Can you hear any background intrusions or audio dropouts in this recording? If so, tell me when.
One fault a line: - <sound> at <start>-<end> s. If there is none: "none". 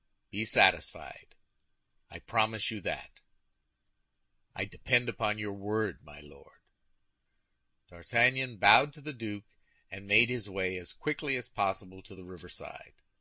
none